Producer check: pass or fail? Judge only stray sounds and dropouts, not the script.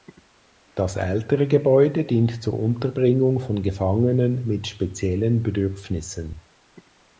pass